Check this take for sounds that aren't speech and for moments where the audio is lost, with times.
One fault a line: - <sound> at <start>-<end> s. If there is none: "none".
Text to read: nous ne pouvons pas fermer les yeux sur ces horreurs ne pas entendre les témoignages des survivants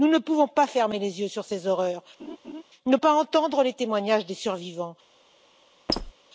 - laugh at 2.2-2.6 s
- squeak at 5.9-6.1 s